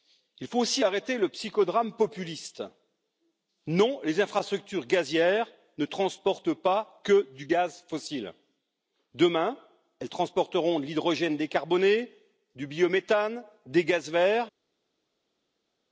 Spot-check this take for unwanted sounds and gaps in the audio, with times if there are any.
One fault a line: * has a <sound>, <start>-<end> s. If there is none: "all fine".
all fine